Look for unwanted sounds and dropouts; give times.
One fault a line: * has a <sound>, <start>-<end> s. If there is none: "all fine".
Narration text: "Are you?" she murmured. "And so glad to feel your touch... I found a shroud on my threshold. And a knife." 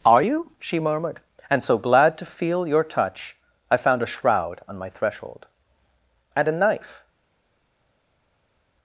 all fine